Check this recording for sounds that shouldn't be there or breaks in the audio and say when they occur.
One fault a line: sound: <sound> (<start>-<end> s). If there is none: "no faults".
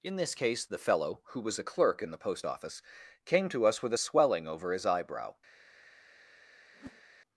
sound: whoosh (6.7-7.0 s)